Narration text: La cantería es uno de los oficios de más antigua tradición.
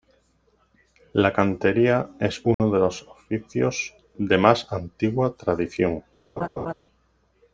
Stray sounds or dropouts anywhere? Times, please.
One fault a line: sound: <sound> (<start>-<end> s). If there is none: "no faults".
sound: dropout (2.5-2.6 s)
sound: laugh (6.4-6.7 s)